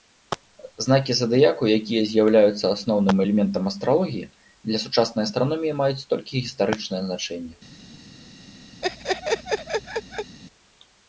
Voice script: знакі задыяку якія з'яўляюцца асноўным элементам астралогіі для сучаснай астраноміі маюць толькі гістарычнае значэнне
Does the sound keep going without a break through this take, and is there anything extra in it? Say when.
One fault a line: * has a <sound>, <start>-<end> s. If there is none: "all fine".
* has a laugh, 8.8-10.4 s